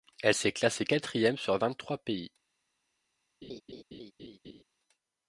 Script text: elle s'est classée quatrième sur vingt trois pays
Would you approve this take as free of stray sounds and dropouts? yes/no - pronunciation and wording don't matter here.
no